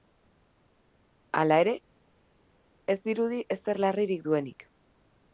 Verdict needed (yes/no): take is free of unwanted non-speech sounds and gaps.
yes